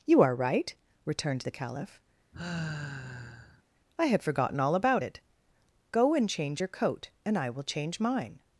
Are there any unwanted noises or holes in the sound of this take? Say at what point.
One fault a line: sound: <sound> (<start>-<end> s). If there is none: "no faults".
sound: sigh (2.3-3.6 s)